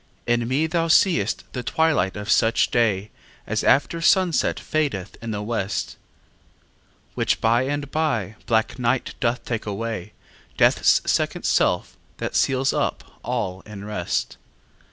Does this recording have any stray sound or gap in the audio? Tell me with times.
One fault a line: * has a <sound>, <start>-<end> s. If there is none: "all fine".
all fine